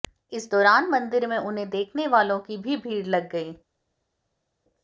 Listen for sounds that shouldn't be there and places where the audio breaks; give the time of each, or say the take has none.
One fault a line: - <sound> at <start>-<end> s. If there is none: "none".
none